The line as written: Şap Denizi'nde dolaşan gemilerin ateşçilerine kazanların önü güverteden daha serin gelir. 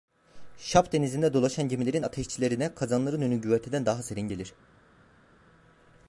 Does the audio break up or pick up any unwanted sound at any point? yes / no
no